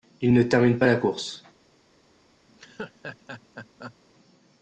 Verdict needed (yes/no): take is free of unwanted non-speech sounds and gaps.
no